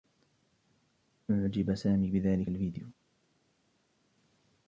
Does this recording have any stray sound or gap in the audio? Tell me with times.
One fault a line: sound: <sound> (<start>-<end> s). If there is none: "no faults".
no faults